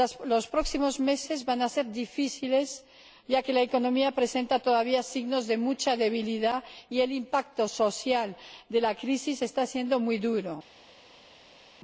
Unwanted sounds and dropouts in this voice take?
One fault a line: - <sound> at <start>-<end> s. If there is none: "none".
none